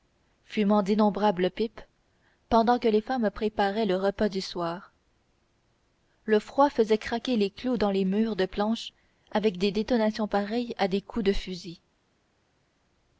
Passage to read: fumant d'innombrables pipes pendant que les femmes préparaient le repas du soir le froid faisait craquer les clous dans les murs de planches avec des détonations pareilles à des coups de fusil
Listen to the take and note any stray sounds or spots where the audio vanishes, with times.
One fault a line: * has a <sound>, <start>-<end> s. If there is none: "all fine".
all fine